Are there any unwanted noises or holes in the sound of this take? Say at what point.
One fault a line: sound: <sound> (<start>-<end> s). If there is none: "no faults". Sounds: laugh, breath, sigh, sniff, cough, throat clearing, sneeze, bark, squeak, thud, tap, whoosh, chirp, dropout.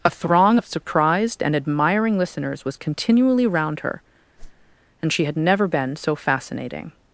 sound: whoosh (4.4-4.8 s)